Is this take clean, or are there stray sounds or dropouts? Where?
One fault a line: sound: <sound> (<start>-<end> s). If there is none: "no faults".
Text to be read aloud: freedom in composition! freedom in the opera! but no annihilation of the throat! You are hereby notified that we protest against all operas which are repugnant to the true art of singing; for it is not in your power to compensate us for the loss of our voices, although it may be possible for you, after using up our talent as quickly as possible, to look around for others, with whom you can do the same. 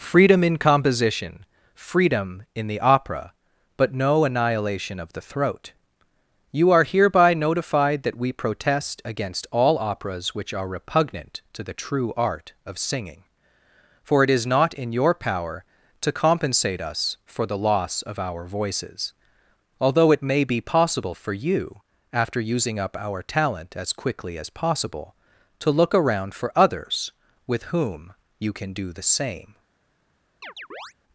sound: chirp (30.4-30.9 s)